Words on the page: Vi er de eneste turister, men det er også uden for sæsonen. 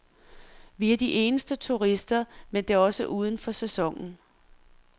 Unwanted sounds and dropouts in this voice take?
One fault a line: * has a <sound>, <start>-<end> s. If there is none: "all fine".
all fine